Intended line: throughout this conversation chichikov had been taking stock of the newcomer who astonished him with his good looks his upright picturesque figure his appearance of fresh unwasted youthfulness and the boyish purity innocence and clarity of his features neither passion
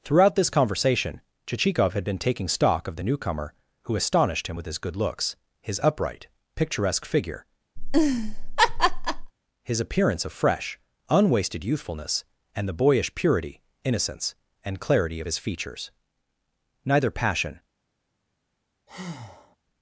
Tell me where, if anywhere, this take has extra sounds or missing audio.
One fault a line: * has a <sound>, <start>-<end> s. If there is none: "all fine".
* has a laugh, 7.8-9.3 s
* has a breath, 18.9-19.6 s